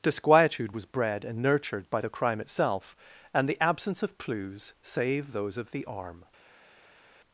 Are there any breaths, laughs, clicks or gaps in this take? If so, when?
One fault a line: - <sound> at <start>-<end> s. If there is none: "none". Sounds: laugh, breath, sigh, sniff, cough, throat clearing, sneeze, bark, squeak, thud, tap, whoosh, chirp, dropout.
none